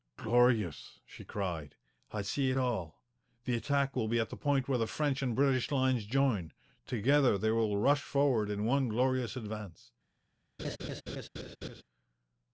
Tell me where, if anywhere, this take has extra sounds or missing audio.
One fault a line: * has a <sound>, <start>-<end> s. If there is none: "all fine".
* has a laugh, 10.6-11.8 s